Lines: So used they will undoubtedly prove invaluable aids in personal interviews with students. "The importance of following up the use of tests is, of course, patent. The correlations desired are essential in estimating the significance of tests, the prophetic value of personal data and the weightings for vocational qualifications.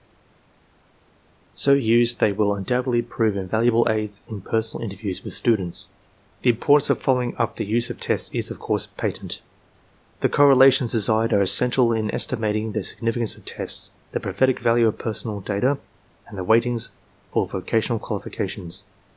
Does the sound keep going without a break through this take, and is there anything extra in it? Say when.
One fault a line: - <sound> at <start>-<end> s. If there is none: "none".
none